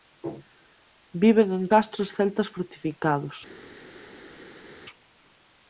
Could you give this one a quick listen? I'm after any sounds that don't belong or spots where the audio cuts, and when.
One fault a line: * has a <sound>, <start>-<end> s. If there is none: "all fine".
all fine